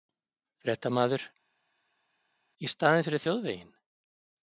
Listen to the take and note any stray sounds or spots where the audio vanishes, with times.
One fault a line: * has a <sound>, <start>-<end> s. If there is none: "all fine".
all fine